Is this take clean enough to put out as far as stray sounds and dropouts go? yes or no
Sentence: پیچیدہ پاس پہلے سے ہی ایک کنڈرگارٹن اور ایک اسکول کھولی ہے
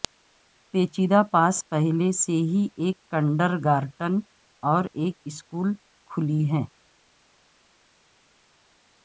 yes